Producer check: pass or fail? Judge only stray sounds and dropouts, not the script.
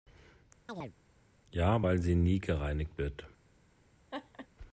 fail